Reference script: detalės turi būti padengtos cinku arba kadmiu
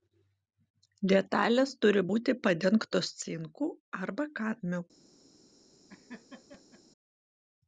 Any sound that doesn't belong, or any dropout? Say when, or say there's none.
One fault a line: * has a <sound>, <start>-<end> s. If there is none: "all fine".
* has a laugh, 5.9-6.8 s